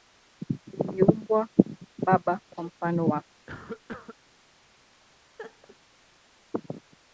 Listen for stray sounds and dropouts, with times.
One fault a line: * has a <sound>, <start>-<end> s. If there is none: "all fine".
* has a cough, 3.5-4.2 s
* has a laugh, 5.4-5.8 s